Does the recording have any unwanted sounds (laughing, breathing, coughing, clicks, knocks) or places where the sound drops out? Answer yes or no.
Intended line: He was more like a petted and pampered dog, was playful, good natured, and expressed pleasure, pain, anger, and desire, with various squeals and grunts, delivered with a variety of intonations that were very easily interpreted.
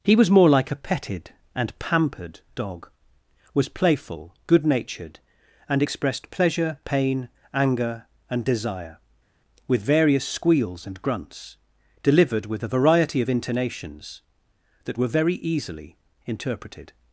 no